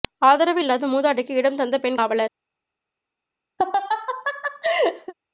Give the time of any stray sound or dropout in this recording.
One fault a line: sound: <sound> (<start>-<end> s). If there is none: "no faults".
sound: laugh (3.6-5.1 s)